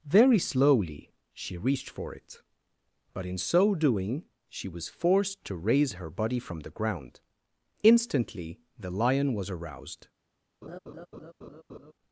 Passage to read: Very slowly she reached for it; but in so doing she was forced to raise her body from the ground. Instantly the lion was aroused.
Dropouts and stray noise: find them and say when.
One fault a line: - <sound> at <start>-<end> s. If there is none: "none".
- laugh at 10.6-11.9 s